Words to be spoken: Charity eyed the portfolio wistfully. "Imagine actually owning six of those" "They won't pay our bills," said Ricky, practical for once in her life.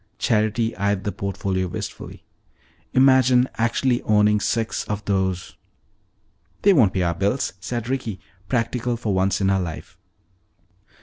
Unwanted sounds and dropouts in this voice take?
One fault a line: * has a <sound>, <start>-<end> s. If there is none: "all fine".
all fine